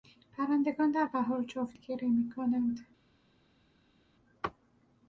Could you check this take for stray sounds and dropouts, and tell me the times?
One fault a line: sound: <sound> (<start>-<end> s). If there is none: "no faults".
no faults